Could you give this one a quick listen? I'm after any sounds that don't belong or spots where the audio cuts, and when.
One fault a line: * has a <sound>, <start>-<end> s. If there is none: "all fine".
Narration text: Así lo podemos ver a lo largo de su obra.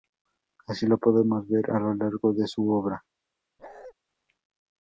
* has a bark, 3.6-3.9 s